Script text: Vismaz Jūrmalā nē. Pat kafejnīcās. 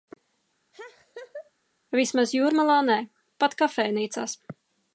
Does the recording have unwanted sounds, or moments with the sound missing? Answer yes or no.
yes